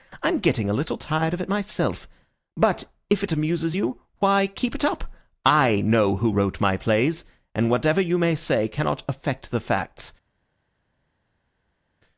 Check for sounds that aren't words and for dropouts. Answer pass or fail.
pass